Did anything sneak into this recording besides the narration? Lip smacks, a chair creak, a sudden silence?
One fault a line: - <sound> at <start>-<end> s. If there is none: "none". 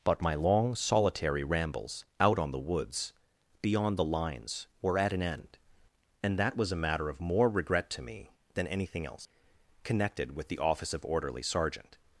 none